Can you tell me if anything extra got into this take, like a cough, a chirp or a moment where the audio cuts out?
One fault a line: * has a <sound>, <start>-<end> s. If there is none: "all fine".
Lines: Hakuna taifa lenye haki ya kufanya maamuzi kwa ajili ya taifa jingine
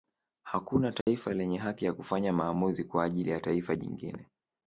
* has a dropout, 1.0-1.1 s